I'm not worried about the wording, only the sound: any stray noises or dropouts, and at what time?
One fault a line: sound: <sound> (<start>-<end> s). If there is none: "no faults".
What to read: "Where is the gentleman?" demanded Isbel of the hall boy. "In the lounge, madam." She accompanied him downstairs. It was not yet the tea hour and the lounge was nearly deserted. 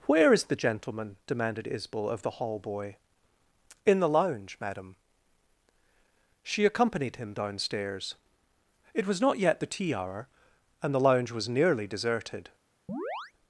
sound: chirp (12.9-13.3 s)